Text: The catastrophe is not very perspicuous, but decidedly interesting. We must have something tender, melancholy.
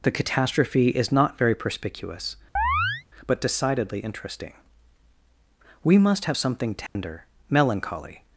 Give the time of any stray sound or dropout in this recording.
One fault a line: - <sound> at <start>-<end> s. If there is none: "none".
- chirp at 2.6-3.0 s
- dropout at 6.9-7.0 s